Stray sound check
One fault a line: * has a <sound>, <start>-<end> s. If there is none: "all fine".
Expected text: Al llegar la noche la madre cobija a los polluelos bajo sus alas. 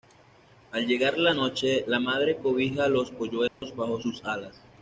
* has a dropout, 3.5-3.6 s